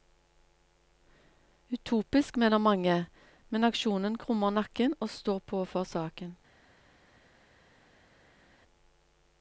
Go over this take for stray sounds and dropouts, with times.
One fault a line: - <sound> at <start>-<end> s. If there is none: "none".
none